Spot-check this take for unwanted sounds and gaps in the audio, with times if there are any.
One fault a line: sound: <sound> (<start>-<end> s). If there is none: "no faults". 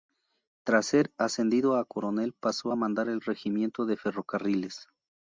no faults